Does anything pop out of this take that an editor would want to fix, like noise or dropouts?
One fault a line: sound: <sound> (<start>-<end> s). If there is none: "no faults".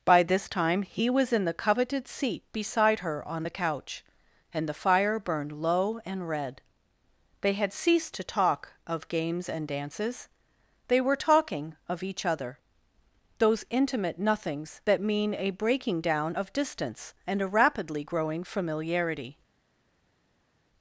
no faults